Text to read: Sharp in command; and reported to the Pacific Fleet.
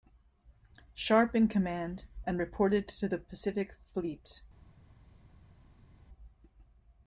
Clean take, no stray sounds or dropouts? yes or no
yes